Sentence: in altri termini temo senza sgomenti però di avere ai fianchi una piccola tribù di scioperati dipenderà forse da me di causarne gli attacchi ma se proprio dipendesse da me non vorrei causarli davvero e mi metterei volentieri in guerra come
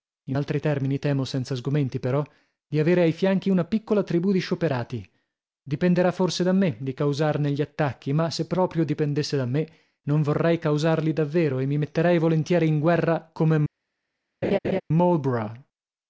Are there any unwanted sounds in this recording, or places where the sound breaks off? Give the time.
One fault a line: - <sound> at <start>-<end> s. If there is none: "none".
- laugh at 14.4-14.8 s